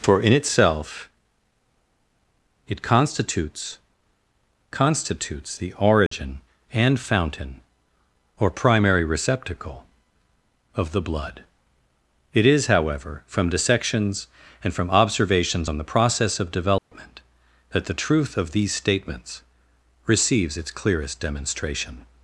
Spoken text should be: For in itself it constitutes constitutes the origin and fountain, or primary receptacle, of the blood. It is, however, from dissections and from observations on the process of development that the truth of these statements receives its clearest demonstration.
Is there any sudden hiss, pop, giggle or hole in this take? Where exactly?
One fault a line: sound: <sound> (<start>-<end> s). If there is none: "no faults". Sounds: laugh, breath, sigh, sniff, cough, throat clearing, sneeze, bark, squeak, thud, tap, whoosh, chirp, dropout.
sound: dropout (6.1-6.1 s)
sound: dropout (16.8-16.9 s)